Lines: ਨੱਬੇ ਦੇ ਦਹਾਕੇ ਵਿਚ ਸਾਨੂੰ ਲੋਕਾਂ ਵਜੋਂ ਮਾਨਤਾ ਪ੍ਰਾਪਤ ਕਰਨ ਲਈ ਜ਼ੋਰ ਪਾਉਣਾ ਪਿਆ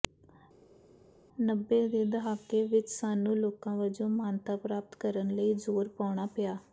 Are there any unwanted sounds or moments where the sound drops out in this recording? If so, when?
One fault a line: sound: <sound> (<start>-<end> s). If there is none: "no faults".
no faults